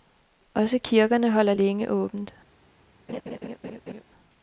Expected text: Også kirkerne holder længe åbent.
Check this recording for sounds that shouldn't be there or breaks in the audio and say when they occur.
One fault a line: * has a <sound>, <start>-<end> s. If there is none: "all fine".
* has a laugh, 3.1-4.0 s